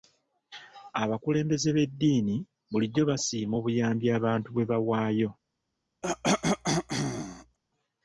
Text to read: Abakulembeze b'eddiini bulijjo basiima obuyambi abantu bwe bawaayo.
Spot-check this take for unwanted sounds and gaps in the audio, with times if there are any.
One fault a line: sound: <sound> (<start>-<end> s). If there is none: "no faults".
sound: cough (6.0-7.6 s)